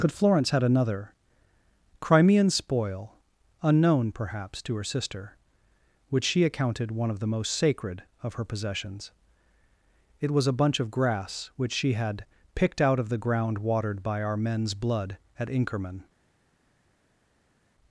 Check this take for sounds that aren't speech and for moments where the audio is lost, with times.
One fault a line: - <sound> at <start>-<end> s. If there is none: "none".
none